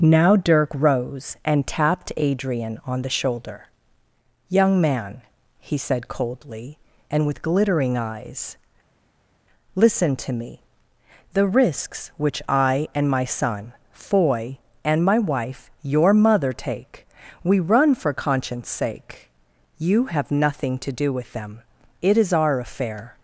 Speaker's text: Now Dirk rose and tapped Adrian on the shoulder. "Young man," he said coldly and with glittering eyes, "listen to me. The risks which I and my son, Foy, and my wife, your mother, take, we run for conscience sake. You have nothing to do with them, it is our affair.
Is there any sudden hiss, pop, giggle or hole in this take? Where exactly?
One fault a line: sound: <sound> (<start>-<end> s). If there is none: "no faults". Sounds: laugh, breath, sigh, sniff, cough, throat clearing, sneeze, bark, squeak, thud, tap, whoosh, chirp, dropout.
no faults